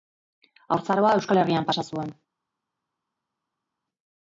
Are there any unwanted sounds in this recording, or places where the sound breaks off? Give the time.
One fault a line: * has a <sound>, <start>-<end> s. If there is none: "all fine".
all fine